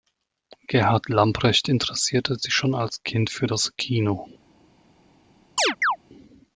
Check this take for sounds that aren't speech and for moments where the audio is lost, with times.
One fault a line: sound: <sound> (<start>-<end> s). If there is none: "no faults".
sound: chirp (5.6-6.0 s)